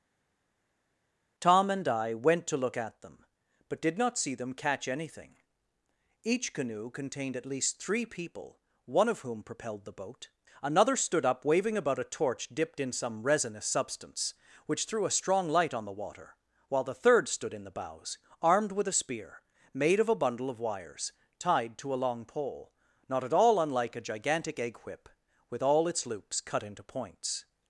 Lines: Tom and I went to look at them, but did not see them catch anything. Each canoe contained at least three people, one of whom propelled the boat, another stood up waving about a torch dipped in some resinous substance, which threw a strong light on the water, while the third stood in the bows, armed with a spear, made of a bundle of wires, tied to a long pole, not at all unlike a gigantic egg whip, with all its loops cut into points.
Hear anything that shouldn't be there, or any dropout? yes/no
no